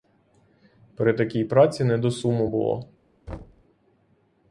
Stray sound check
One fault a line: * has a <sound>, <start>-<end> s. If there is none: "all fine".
* has a thud, 3.3-3.6 s